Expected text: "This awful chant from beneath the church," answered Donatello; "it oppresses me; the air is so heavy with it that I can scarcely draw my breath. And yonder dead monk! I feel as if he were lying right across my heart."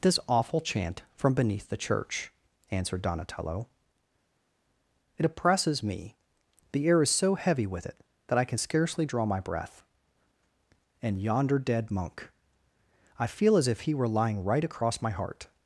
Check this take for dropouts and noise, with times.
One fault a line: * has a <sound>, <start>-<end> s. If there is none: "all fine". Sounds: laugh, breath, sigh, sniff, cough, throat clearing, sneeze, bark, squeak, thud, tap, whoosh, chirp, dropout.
all fine